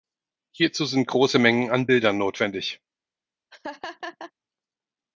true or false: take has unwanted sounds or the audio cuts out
true